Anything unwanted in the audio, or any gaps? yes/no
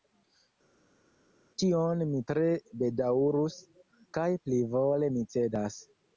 no